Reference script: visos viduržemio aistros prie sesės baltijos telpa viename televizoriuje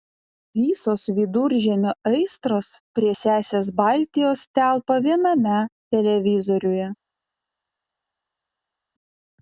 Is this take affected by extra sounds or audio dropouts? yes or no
no